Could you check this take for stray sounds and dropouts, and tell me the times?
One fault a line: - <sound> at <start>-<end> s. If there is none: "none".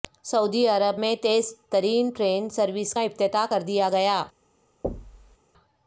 - thud at 4.8-5.4 s